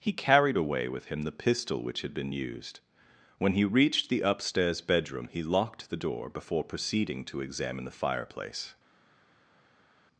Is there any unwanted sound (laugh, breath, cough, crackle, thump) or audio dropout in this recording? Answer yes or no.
no